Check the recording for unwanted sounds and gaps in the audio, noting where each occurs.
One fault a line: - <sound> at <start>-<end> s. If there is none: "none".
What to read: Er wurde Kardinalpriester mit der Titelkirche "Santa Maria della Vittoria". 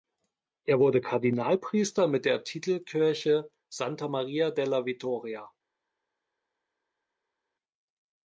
none